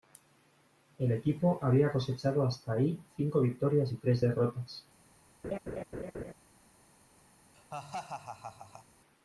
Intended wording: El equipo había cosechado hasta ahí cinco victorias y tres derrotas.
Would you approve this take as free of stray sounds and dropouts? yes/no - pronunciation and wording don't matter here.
no